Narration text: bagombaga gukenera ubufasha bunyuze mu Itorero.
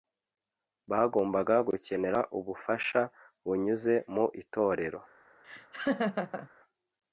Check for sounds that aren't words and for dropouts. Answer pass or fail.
fail